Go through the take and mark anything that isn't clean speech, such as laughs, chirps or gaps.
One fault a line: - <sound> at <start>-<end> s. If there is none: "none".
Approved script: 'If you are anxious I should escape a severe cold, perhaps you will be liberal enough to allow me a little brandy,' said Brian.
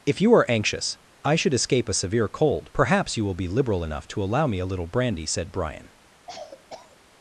- cough at 6.3-7.0 s